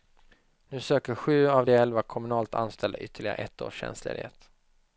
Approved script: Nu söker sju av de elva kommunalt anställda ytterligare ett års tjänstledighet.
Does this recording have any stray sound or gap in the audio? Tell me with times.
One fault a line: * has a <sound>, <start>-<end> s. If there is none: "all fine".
all fine